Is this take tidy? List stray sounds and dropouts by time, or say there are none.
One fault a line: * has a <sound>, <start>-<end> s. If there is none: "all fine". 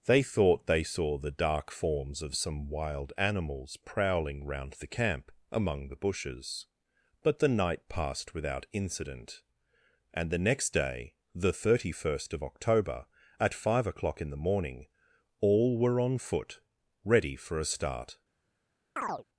* has a chirp, 19.0-19.2 s